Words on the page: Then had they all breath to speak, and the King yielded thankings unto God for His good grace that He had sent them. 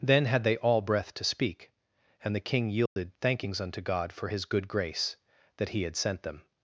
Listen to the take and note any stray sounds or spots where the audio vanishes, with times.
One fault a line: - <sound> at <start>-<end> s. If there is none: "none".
- dropout at 2.9-3.0 s